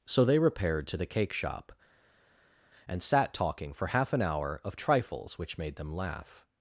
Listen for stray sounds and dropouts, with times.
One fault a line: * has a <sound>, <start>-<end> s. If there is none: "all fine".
all fine